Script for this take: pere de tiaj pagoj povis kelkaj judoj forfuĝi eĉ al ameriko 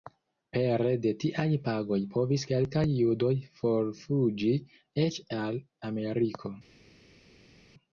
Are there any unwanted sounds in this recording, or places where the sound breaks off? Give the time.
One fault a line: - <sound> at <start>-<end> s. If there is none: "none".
none